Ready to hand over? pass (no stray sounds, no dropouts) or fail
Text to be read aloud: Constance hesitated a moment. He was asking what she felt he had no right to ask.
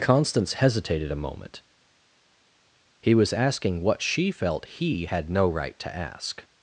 pass